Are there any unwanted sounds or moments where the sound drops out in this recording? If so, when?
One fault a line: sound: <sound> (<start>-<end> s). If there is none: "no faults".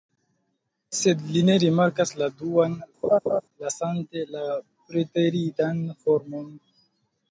sound: laugh (3.0-3.4 s)